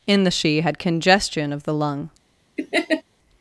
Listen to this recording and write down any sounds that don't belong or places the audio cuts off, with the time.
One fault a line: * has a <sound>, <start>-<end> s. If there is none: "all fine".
* has a laugh, 2.6-3.0 s